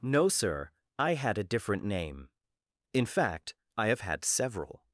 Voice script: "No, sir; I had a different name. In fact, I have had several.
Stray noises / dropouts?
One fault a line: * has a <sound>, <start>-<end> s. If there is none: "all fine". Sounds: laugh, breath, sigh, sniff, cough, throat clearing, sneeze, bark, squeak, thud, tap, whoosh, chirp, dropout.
all fine